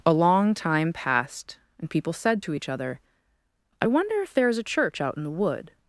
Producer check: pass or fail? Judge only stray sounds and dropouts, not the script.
pass